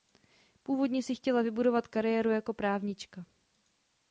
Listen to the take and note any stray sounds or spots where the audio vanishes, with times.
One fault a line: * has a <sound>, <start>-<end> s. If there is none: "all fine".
all fine